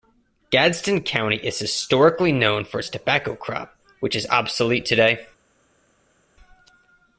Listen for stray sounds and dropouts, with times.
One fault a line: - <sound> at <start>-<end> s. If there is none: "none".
none